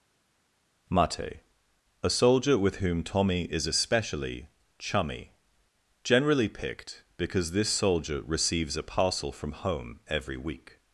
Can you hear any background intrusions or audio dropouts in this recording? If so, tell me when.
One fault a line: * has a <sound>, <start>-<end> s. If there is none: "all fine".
all fine